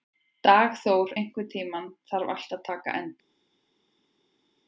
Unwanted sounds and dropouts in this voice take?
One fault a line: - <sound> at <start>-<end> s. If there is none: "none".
none